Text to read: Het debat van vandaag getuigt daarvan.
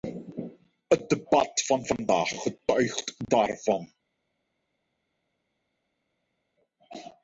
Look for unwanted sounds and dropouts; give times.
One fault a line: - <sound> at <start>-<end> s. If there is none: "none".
none